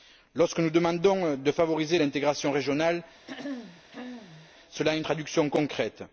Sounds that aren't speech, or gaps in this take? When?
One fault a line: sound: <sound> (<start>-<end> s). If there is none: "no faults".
sound: throat clearing (3.3-4.5 s)